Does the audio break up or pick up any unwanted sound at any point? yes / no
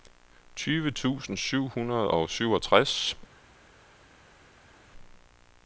no